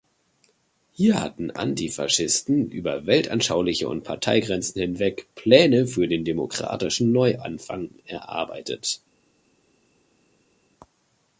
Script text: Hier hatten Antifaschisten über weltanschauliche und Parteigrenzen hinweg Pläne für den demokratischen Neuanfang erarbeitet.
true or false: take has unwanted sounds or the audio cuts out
false